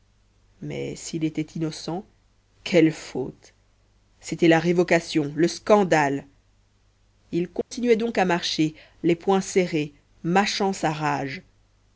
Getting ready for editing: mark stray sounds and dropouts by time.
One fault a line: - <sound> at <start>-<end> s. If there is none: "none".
- dropout at 7.6-7.7 s